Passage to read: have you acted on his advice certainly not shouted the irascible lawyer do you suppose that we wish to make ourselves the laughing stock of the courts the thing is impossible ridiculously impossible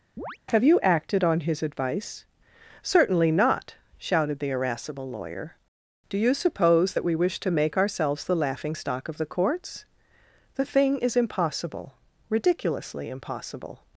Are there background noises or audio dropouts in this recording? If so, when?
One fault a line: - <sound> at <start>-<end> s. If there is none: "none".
- chirp at 0.2-0.4 s